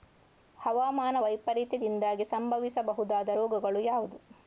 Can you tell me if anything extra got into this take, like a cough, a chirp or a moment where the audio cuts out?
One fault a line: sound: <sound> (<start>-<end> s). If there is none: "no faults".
no faults